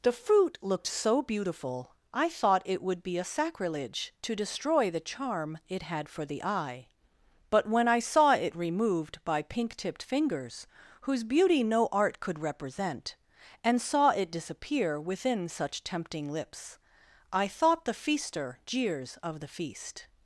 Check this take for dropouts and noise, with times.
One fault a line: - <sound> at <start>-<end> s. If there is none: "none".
none